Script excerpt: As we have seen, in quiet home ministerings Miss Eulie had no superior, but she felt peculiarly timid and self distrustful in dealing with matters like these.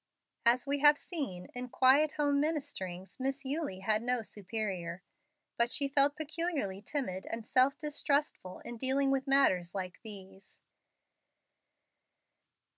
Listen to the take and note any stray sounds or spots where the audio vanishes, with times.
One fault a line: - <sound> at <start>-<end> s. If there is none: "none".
none